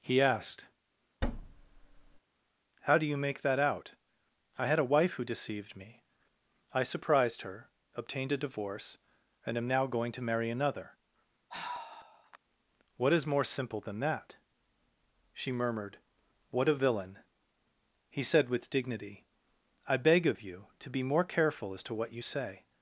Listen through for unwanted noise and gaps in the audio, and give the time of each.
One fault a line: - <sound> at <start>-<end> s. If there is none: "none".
- thud at 1.2-2.2 s
- sigh at 11.5-12.4 s